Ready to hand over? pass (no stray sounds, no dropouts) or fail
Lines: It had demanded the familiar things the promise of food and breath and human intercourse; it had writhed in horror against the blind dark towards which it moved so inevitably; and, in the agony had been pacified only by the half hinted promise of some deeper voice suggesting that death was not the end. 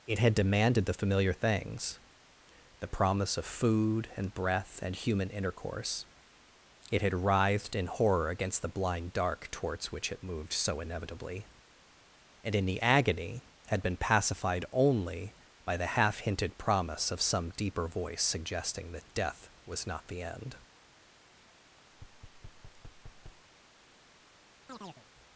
fail